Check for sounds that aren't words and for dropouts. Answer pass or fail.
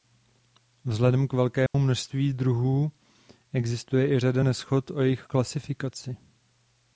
fail